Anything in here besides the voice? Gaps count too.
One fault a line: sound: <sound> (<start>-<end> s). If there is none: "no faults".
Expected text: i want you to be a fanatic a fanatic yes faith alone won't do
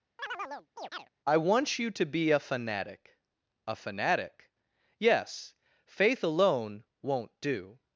sound: chirp (0.2-1.1 s)